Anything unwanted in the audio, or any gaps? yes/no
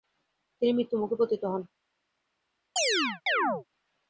yes